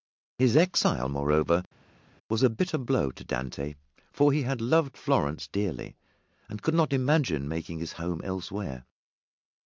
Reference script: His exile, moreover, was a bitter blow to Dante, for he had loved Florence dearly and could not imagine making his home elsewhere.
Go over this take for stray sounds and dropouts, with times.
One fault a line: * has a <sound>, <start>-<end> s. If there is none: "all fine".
all fine